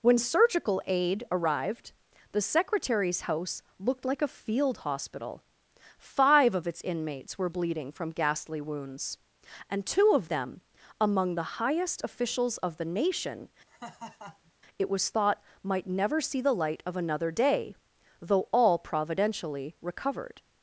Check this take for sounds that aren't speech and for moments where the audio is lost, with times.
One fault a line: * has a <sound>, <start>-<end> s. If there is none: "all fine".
* has a laugh, 13.7-14.5 s